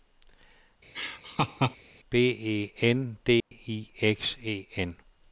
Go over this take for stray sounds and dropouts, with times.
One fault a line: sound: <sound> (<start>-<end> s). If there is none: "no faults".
sound: laugh (0.9-1.8 s)
sound: dropout (3.4-3.5 s)